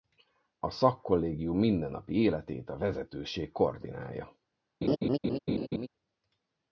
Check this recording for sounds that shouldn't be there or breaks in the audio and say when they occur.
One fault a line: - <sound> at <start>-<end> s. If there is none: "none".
- laugh at 4.8-5.9 s